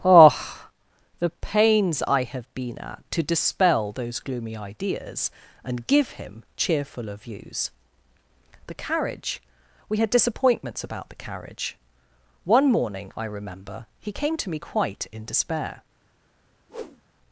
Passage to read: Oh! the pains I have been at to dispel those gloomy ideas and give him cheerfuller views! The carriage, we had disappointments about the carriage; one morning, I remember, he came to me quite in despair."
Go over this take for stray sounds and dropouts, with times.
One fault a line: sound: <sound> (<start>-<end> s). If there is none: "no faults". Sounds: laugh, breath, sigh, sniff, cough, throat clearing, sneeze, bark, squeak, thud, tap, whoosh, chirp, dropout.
sound: whoosh (16.7-17.0 s)